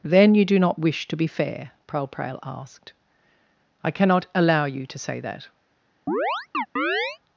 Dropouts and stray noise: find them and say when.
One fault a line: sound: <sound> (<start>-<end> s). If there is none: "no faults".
sound: chirp (6.1-7.2 s)